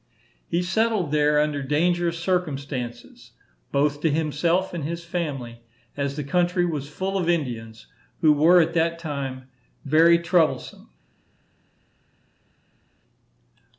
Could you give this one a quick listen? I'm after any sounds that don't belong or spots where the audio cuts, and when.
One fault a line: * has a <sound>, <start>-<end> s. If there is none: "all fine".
all fine